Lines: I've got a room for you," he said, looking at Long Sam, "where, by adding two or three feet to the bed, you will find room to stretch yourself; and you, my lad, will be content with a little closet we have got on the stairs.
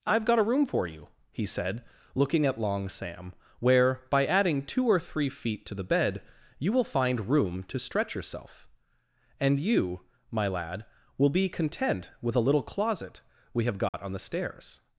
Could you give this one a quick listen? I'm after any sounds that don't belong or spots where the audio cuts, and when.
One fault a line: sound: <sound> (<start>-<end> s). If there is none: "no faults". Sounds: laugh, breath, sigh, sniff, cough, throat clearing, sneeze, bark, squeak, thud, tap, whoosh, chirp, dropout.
sound: dropout (13.9-13.9 s)